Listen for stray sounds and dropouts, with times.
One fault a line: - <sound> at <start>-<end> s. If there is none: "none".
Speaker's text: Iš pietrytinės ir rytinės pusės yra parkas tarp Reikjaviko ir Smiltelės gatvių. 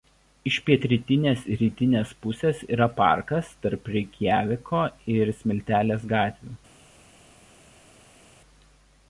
none